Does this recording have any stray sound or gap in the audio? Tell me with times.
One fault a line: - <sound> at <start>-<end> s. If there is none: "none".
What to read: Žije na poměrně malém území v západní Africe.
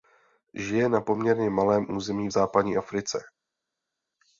none